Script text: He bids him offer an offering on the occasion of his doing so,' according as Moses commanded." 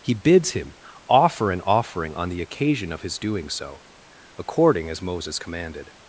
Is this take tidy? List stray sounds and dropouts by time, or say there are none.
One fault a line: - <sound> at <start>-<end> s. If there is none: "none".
none